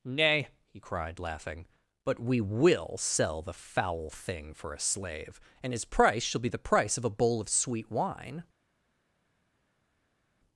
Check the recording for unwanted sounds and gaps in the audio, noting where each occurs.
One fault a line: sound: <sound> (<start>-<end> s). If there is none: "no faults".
no faults